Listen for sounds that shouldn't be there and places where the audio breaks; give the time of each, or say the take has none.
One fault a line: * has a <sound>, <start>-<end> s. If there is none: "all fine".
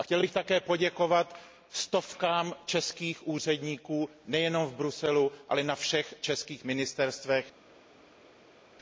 all fine